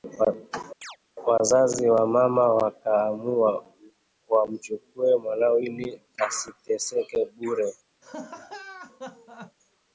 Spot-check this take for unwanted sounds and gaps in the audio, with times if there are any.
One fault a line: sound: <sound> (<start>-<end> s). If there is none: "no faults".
sound: chirp (0.8-1.0 s)
sound: laugh (8.0-9.6 s)